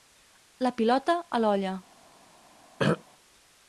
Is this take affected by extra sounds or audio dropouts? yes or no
yes